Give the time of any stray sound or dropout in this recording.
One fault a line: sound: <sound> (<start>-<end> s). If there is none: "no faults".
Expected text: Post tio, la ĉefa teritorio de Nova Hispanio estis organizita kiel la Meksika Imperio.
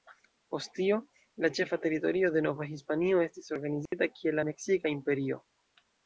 sound: dropout (3.9-3.9 s)